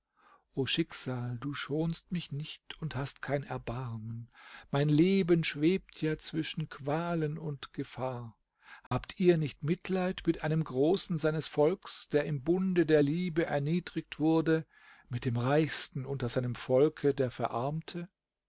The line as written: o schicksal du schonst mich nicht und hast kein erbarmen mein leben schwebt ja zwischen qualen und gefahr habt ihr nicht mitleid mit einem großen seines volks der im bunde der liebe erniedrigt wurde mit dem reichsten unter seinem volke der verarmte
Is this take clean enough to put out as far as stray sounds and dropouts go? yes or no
no